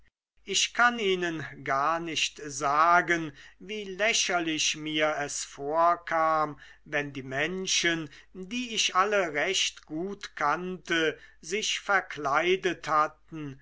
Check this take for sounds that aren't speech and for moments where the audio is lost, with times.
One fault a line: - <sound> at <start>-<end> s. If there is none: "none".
none